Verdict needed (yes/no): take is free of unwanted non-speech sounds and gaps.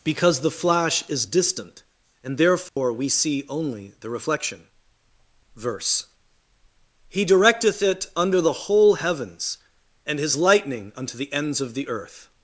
no